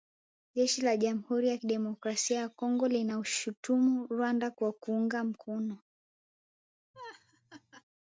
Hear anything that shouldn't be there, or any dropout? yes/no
yes